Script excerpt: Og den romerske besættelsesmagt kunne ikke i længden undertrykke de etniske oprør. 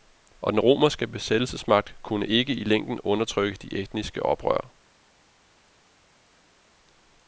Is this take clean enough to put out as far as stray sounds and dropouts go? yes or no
yes